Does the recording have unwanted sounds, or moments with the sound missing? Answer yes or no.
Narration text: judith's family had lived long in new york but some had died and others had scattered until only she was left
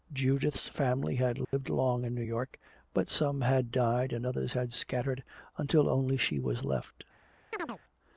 yes